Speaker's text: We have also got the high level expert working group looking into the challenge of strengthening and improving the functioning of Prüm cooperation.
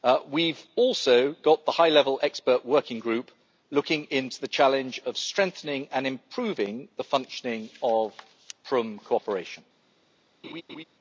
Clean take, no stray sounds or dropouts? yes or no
no